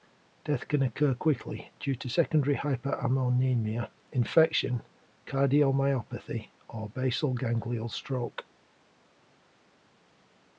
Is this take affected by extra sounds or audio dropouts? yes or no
no